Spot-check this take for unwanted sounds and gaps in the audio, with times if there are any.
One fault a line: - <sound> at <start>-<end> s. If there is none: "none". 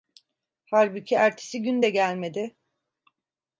none